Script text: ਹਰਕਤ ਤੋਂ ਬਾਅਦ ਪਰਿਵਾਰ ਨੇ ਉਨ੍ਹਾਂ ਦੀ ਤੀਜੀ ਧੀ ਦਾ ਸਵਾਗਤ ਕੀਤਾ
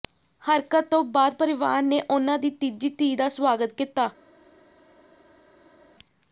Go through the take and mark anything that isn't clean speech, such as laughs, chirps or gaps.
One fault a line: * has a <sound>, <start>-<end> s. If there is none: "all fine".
all fine